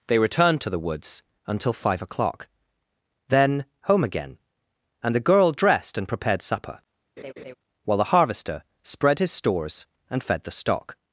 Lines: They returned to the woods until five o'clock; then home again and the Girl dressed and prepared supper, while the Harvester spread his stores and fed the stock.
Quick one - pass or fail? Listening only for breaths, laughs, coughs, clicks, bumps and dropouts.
fail